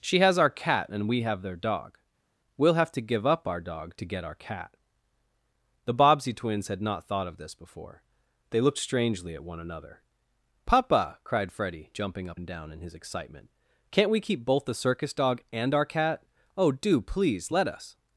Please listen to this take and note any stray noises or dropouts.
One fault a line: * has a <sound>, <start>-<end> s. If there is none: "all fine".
all fine